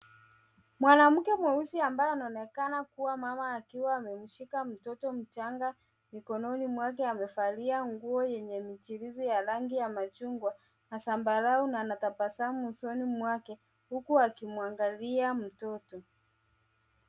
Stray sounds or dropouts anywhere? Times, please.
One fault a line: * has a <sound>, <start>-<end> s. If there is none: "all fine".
all fine